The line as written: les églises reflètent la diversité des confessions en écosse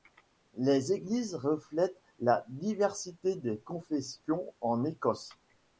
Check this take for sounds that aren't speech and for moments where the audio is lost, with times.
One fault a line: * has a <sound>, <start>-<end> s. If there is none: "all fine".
all fine